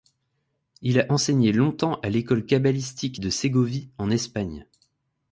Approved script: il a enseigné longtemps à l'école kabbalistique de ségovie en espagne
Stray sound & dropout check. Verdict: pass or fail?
pass